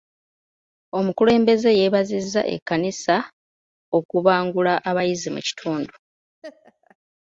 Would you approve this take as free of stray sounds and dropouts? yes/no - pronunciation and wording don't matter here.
no